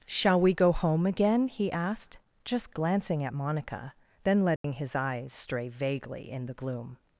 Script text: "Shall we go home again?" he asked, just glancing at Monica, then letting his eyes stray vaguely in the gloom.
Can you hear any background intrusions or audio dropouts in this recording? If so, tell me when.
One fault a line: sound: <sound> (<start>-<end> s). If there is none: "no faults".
sound: dropout (4.6-4.6 s)